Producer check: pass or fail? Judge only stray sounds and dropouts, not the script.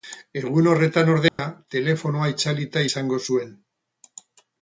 fail